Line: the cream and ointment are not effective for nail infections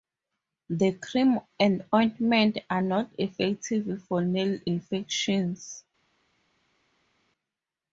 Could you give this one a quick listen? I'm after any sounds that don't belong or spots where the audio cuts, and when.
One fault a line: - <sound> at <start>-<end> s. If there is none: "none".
none